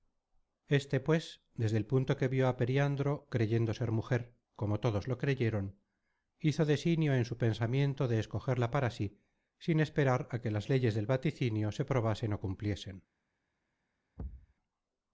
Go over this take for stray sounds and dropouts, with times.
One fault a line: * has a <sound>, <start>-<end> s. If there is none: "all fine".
* has a thud, 14.2-14.5 s